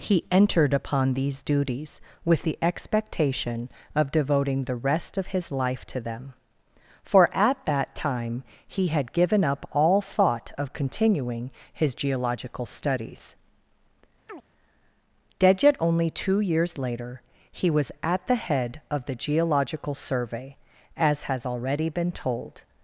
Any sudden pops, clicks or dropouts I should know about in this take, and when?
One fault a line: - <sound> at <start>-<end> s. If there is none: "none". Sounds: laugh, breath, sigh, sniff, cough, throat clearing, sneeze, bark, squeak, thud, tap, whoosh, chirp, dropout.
- chirp at 14.3-14.4 s